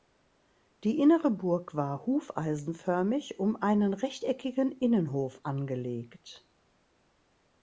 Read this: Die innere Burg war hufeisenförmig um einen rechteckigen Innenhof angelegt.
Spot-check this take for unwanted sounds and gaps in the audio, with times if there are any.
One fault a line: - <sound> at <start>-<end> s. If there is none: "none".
none